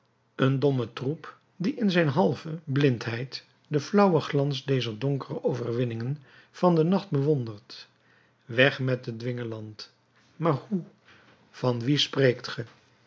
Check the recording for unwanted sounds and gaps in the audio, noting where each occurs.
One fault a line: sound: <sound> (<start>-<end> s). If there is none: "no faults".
no faults